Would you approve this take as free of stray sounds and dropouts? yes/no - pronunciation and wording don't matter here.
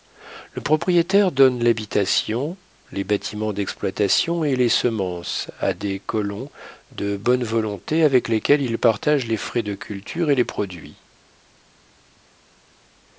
yes